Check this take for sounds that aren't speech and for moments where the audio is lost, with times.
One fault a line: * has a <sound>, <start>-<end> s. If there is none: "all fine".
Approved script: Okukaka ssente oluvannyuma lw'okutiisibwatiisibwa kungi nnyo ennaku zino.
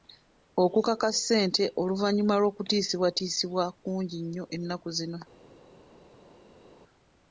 all fine